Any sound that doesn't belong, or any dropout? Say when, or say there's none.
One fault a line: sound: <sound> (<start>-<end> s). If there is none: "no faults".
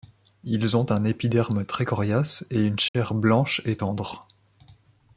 sound: dropout (2.9-2.9 s)